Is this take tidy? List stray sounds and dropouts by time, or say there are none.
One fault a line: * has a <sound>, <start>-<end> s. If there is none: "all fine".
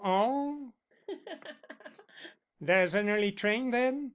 * has a laugh, 0.9-2.5 s